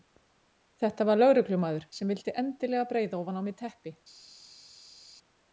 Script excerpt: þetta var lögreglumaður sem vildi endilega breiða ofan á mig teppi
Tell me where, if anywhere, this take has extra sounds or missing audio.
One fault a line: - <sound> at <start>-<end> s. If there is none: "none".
none